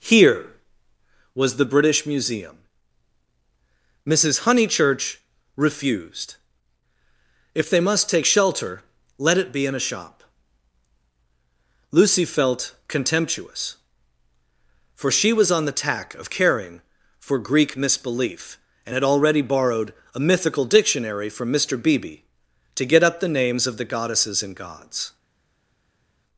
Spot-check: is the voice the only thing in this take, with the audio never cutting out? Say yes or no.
yes